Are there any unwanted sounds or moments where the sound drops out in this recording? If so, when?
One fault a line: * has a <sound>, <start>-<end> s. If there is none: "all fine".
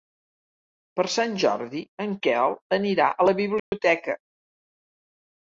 * has a dropout, 3.6-3.7 s